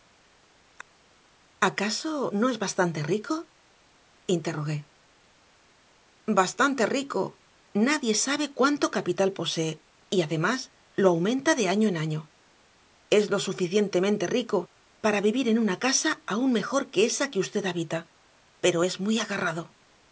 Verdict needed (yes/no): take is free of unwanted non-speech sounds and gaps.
yes